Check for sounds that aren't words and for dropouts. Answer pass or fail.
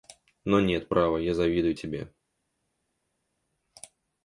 pass